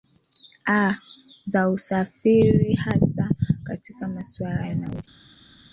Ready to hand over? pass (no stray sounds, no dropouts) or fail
pass